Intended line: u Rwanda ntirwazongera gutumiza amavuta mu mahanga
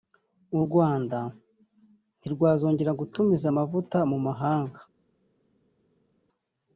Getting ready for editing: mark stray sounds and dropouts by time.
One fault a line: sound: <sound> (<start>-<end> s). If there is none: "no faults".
no faults